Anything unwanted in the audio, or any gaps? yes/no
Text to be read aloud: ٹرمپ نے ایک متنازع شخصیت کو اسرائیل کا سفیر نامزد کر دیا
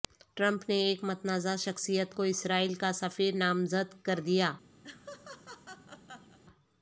yes